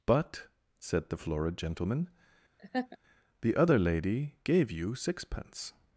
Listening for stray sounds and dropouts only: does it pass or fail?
fail